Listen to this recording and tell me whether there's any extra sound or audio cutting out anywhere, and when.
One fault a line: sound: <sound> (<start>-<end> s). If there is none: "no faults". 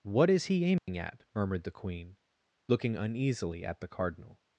sound: dropout (0.8-0.9 s)